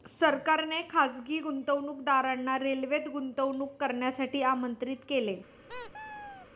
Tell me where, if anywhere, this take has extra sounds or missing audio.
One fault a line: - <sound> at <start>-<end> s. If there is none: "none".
- squeak at 5.7-6.5 s